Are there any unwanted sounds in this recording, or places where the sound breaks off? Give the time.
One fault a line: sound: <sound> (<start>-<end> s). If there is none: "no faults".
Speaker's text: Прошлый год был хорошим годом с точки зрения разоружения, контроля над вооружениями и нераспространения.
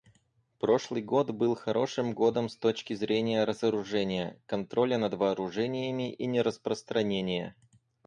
no faults